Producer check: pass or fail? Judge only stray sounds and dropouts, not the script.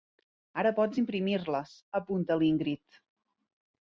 pass